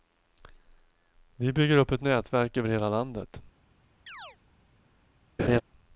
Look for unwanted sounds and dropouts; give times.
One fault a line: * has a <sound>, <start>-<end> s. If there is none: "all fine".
* has a chirp, 4.1-4.4 s
* has a laugh, 5.4-5.6 s